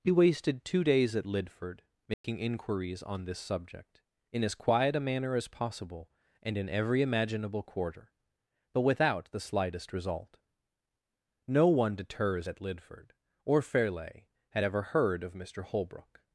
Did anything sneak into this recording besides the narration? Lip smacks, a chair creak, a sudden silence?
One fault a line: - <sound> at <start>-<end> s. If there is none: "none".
- dropout at 2.1-2.2 s